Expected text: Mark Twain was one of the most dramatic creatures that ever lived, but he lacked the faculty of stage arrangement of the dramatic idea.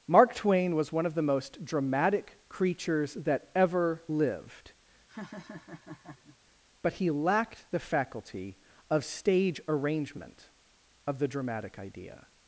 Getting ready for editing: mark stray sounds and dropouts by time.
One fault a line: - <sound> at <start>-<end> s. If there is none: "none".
- laugh at 5.1-6.4 s